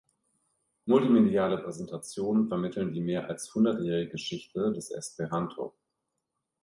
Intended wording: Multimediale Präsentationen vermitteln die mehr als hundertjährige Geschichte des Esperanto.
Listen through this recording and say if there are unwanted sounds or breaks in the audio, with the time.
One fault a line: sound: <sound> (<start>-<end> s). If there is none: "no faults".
no faults